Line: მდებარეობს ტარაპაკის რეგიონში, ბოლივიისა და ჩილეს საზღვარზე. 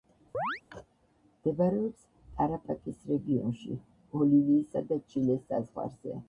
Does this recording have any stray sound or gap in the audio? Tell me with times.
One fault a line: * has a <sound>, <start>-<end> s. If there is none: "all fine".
* has a chirp, 0.3-0.6 s